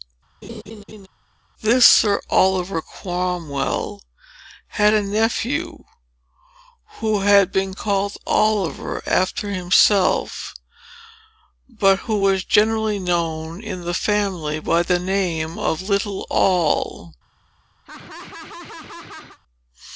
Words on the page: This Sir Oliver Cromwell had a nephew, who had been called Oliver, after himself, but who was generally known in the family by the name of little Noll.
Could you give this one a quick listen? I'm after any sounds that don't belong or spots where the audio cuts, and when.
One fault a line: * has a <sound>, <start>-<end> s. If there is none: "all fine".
* has a laugh, 0.4-1.1 s
* has a laugh, 17.8-19.4 s